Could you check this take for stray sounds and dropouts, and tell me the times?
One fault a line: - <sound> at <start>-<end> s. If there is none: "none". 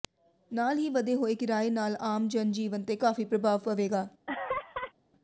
- laugh at 4.3-4.9 s